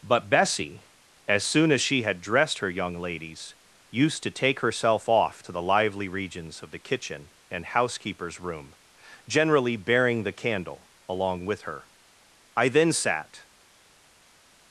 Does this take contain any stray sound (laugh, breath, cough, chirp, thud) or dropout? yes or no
no